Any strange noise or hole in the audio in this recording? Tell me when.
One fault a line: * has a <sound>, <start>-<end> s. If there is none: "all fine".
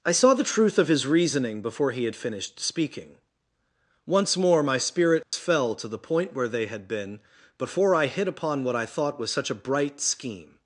* has a dropout, 5.2-5.3 s